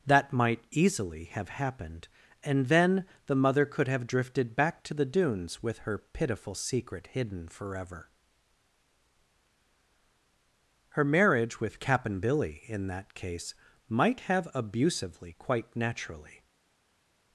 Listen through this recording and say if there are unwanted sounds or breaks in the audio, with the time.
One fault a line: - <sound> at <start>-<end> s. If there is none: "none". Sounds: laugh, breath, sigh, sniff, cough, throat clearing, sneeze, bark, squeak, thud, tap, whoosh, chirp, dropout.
none